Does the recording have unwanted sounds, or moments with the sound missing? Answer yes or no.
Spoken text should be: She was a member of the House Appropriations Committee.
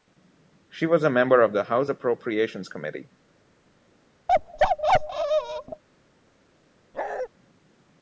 yes